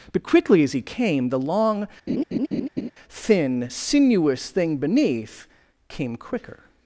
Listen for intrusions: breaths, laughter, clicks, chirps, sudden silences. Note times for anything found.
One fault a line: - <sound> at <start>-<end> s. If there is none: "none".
- laugh at 2.1-2.9 s